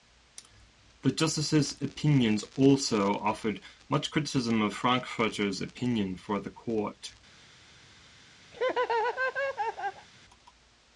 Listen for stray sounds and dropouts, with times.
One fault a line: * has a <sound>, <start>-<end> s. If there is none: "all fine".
* has a laugh, 8.5-10.1 s